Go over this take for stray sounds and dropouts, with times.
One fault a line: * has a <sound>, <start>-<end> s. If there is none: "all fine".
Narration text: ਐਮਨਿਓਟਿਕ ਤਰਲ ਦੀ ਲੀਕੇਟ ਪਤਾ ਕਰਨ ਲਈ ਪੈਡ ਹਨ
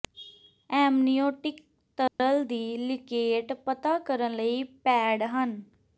* has a dropout, 2.1-2.2 s